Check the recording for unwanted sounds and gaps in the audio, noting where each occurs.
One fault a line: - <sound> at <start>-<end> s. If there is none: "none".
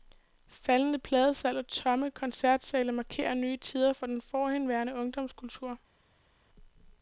none